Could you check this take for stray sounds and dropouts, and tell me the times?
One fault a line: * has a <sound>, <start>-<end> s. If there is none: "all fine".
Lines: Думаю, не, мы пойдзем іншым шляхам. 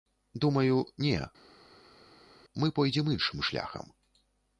all fine